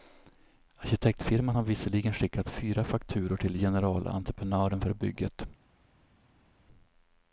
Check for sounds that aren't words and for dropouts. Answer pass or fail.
pass